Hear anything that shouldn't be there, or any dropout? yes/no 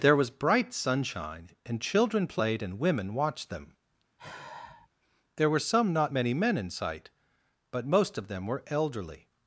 yes